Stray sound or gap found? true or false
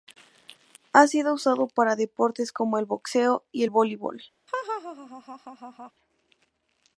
true